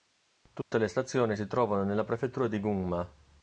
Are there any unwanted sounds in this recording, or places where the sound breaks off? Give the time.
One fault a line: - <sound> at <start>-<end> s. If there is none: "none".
- dropout at 0.6-0.7 s